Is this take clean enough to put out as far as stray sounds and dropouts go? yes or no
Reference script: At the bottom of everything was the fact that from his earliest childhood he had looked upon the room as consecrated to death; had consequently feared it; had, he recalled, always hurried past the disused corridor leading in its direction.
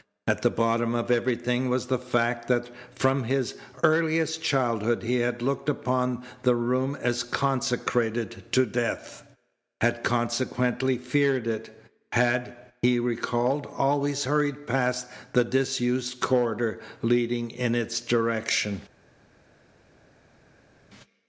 yes